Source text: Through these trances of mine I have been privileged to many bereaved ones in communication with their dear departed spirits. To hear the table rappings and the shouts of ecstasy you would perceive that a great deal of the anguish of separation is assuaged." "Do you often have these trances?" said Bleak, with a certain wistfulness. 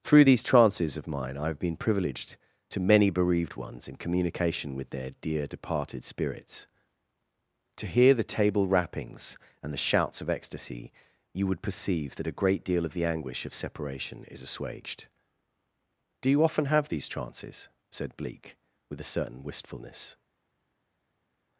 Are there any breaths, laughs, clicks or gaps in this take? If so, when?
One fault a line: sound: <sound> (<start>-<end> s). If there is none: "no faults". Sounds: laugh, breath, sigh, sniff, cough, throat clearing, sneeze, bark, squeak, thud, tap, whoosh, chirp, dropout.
no faults